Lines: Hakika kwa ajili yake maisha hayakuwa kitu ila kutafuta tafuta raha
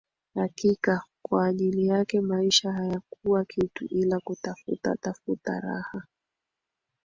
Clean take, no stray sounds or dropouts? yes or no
yes